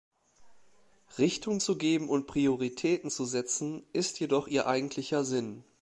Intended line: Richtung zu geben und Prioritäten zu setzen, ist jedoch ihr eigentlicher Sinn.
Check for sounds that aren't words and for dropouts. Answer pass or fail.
pass